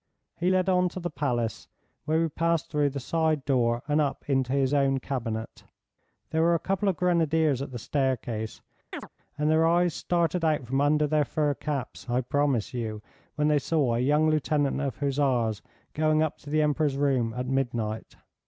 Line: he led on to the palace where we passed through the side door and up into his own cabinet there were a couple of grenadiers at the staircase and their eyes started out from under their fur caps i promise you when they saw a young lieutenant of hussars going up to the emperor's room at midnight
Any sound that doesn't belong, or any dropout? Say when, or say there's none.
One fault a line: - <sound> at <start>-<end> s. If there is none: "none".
- chirp at 8.9-9.1 s